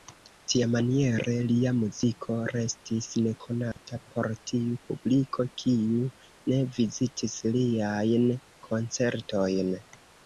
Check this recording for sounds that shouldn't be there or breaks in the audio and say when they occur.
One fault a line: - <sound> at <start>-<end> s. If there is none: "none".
- dropout at 3.7-3.8 s